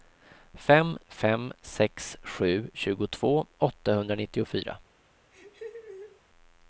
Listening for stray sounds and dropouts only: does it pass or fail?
fail